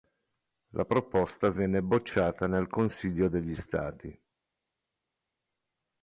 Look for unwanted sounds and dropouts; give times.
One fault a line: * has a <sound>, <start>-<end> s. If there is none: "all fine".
all fine